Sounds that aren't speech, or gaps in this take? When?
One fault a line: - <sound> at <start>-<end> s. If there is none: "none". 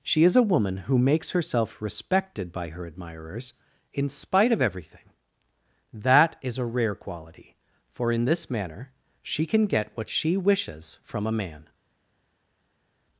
none